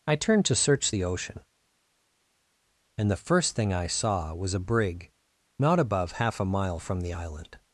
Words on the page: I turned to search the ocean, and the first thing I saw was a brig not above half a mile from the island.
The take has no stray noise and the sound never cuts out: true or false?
true